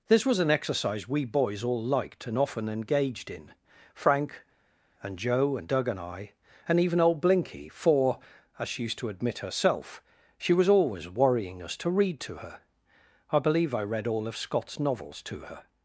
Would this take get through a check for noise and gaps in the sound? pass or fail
pass